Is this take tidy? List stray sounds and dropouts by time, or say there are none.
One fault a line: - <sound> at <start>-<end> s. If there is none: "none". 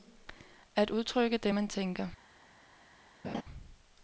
- laugh at 3.2-3.4 s